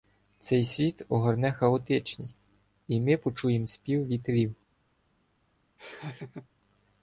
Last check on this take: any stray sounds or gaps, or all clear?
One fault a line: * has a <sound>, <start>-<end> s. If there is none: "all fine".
* has a laugh, 5.8-6.5 s